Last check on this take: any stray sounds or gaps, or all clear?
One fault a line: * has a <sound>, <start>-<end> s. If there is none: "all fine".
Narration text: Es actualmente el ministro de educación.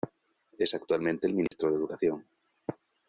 * has a dropout, 1.5-1.5 s